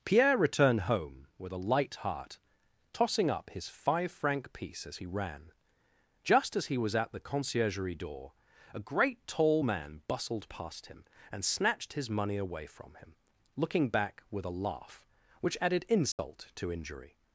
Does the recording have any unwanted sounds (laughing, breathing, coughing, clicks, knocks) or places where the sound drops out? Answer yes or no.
yes